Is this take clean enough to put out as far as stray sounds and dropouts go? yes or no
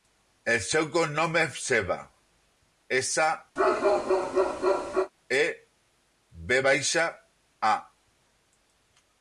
no